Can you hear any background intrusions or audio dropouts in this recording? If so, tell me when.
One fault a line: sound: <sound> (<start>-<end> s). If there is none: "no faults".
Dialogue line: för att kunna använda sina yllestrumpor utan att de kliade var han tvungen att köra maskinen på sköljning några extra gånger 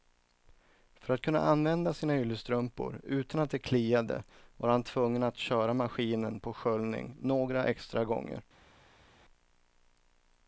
no faults